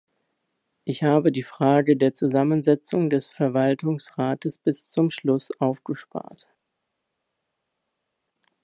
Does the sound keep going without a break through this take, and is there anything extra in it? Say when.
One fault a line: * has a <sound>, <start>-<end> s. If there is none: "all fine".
all fine